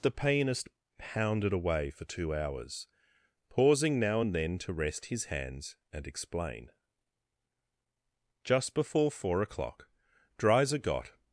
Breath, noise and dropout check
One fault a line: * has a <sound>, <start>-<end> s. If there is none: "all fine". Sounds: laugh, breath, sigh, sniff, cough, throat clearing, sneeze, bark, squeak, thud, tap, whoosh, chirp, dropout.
all fine